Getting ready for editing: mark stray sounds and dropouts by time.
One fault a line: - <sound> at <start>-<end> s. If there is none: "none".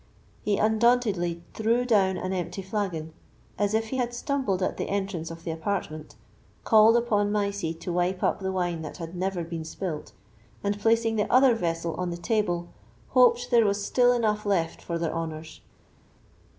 none